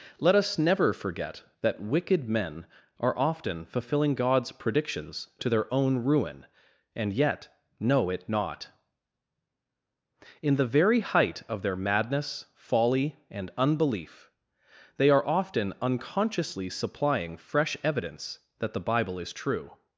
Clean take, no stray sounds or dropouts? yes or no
yes